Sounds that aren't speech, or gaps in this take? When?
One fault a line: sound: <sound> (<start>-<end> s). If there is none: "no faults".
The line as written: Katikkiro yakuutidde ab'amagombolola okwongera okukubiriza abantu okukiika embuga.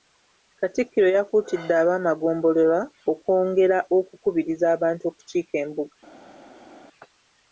no faults